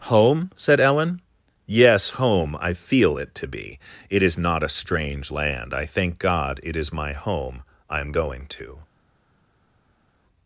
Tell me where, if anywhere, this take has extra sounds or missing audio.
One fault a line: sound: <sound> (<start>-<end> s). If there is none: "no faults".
no faults